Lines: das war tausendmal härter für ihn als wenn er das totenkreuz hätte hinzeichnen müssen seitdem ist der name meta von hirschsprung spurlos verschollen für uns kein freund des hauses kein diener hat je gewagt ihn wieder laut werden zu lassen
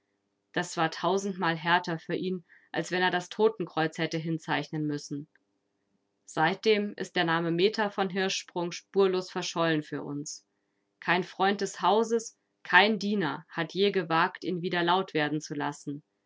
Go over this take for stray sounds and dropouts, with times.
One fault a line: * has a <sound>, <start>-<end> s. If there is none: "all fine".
all fine